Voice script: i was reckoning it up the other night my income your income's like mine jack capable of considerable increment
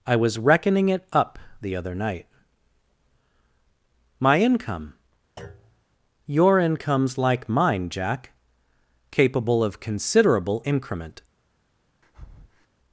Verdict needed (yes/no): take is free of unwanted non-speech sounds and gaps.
no